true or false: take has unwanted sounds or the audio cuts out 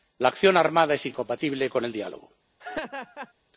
true